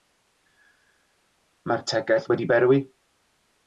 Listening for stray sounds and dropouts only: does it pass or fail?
pass